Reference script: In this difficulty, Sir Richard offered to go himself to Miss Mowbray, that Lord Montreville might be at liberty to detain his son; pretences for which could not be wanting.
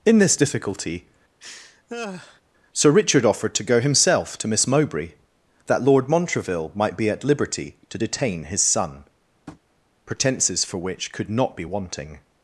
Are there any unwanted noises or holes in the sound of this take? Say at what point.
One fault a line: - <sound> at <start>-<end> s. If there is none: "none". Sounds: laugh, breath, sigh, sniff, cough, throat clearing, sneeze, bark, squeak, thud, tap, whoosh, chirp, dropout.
- laugh at 1.4-2.4 s
- tap at 9.5-9.6 s